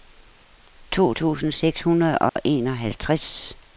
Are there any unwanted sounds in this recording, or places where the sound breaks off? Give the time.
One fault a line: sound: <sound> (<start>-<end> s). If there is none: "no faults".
sound: dropout (2.3-2.4 s)